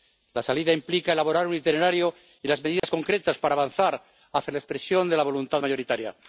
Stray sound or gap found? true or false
true